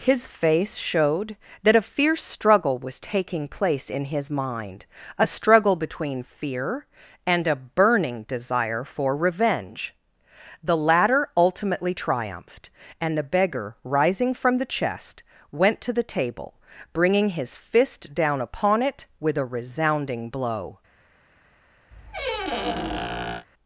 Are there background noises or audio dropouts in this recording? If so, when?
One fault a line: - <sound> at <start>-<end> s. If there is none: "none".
- squeak at 21.9-23.5 s